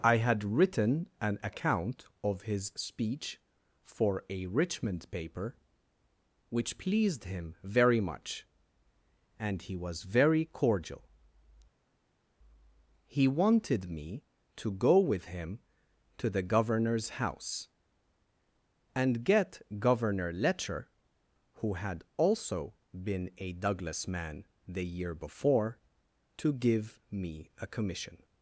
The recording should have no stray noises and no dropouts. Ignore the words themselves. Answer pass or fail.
pass